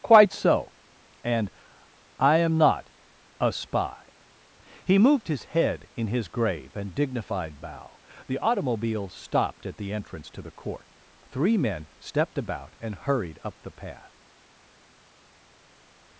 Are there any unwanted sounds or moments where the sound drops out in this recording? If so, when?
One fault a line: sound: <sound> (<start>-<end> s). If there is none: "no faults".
no faults